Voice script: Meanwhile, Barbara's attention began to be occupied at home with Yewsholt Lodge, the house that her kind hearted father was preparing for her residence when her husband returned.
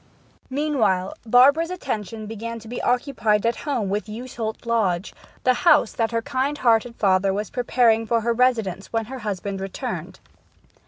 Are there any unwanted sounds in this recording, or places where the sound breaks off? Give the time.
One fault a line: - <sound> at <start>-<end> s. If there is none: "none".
none